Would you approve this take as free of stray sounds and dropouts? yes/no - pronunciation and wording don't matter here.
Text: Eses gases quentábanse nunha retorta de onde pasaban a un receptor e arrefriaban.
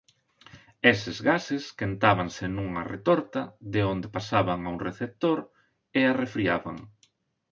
yes